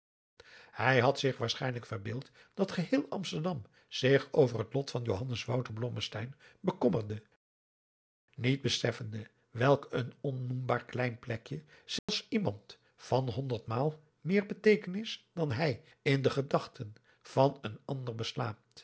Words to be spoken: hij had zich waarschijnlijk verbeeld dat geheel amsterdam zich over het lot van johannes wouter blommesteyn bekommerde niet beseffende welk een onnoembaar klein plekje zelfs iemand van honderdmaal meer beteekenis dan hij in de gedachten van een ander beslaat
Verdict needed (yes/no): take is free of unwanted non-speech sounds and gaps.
no